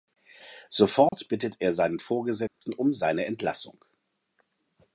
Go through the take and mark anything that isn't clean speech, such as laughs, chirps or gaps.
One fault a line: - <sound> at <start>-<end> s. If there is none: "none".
- dropout at 1.1-1.1 s
- dropout at 2.5-2.6 s